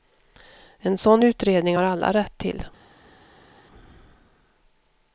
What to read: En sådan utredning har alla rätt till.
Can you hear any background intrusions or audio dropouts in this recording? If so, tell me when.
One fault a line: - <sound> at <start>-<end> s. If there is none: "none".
none